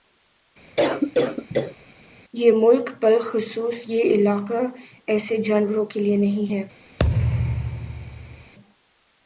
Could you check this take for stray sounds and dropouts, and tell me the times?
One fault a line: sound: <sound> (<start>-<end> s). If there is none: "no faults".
sound: cough (0.8-1.8 s)
sound: thud (7.0-8.5 s)